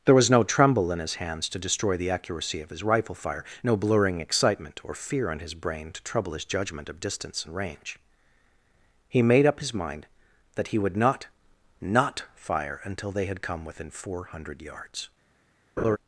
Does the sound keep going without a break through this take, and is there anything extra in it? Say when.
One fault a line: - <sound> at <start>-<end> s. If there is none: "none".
- laugh at 15.8-16.0 s